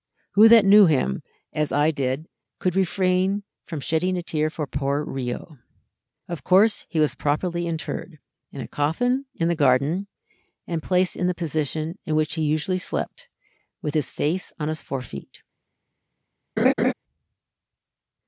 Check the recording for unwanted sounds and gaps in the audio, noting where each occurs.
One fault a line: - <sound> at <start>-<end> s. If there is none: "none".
- laugh at 16.6-16.9 s